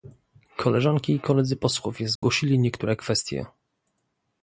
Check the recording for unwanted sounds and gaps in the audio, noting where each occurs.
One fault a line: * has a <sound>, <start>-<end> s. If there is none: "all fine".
* has a dropout, 2.2-2.2 s